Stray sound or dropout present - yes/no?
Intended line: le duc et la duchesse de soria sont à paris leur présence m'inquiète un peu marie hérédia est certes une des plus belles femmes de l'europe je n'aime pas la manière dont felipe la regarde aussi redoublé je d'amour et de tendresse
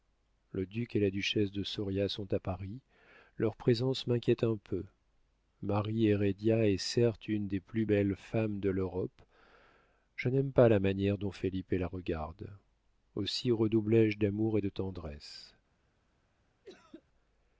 yes